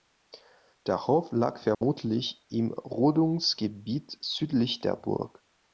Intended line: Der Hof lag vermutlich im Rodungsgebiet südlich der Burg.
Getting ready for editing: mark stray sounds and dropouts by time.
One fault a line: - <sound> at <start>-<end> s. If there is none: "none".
- dropout at 1.7-1.8 s